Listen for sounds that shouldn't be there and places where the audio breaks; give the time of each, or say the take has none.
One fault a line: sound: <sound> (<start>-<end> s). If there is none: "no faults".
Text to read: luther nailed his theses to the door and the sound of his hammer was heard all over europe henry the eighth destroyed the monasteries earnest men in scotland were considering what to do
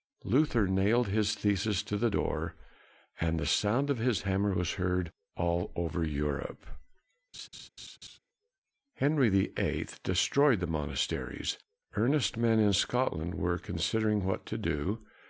sound: laugh (7.3-8.2 s)